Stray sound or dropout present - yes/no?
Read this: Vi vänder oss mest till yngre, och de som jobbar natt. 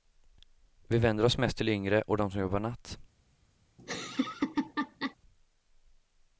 yes